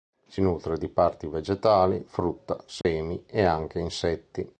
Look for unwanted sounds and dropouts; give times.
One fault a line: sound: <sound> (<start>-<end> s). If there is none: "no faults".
sound: dropout (2.8-2.8 s)